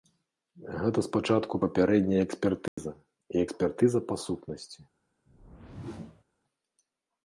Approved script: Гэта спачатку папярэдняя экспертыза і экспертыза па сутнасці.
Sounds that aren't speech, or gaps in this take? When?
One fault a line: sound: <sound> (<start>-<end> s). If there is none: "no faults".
sound: dropout (2.7-2.8 s)
sound: whoosh (5.3-6.2 s)